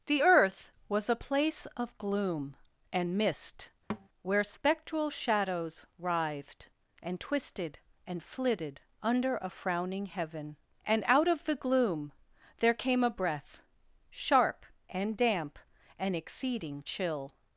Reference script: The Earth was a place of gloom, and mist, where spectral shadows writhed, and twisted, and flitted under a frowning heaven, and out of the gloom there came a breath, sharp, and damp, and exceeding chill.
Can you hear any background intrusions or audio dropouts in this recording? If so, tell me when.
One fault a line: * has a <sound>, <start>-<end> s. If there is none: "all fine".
* has a thud, 3.9-4.1 s